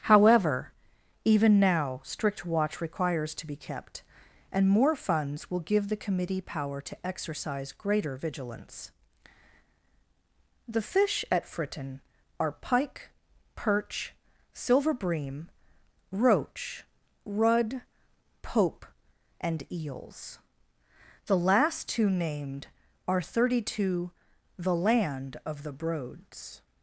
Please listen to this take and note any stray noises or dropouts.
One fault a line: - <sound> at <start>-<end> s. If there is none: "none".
none